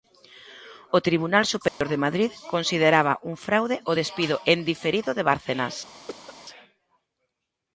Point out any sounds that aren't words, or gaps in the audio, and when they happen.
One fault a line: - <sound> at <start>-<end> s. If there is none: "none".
- dropout at 1.7-1.8 s
- cough at 6.1-6.3 s